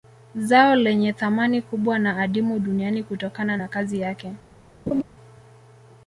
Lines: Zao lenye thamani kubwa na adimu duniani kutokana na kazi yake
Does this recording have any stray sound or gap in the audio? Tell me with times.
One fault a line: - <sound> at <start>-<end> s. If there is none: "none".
- laugh at 4.9-5.0 s